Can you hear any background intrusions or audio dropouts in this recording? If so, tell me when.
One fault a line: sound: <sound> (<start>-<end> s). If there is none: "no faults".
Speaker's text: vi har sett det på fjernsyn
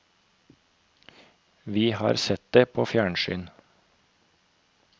no faults